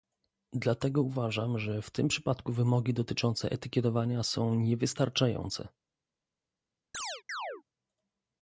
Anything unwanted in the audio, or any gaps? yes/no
yes